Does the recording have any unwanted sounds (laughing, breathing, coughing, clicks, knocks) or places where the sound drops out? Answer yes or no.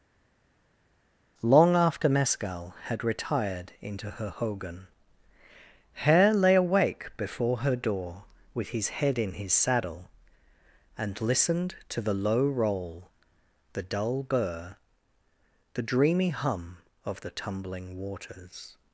no